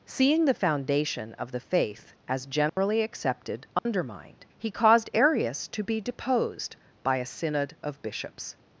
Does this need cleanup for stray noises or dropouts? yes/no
yes